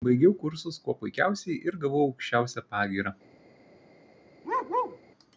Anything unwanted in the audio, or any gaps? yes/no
yes